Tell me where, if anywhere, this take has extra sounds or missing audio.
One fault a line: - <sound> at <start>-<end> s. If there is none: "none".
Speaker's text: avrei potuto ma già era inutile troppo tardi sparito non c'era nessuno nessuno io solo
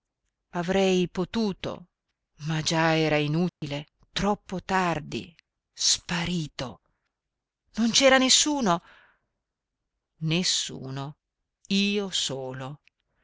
- dropout at 3.5-3.6 s